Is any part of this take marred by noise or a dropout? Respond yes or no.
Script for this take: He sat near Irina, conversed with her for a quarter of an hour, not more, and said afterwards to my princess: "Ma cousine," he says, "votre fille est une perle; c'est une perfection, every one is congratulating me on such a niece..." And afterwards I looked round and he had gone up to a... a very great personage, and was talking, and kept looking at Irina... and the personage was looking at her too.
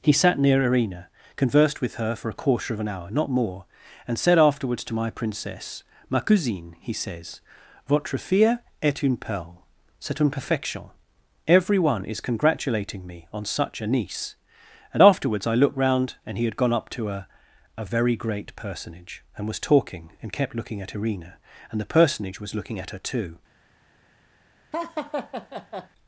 yes